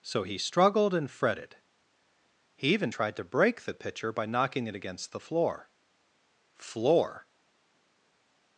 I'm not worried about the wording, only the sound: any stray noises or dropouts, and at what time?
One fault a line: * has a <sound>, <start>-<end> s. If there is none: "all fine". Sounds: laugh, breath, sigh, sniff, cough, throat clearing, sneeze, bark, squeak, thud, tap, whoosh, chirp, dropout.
all fine